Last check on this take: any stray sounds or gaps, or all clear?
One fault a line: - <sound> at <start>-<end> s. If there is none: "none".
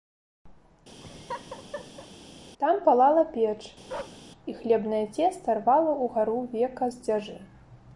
- laugh at 1.0-2.1 s
- bark at 3.9-4.2 s